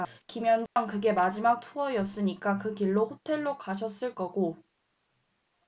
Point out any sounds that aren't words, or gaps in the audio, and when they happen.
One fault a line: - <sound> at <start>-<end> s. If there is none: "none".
- dropout at 0.7-0.8 s